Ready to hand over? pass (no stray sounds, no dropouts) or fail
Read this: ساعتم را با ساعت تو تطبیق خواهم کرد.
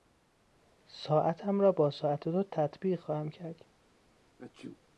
fail